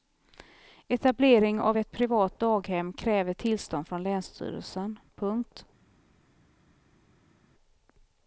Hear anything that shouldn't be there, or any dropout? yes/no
no